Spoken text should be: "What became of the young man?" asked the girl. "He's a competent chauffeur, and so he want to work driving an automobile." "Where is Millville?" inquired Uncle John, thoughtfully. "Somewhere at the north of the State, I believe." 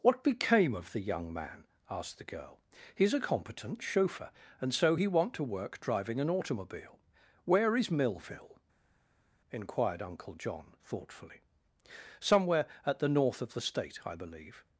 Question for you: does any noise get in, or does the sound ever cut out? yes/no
no